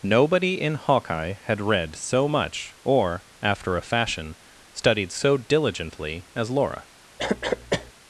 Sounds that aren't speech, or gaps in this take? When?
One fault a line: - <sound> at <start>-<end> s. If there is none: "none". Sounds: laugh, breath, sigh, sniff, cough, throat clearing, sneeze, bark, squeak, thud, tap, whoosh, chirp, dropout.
- cough at 7.2-7.9 s